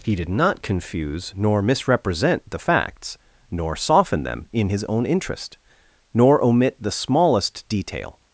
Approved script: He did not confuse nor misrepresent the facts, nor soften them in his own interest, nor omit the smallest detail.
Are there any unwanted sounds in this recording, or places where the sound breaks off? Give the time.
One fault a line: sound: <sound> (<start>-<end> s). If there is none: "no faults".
no faults